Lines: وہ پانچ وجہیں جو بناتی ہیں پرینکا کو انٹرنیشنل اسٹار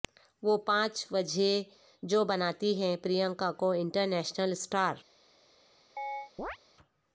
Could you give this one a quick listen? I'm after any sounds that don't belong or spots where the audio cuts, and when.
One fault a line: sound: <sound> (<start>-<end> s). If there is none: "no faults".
sound: chirp (6.0-6.6 s)